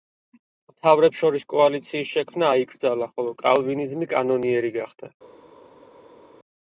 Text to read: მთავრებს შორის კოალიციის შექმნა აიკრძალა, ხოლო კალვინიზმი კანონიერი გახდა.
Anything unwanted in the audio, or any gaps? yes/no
no